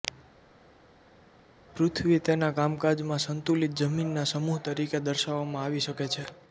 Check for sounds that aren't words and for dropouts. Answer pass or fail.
pass